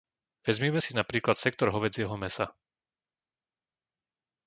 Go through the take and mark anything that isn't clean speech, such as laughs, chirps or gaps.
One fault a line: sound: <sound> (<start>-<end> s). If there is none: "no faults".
no faults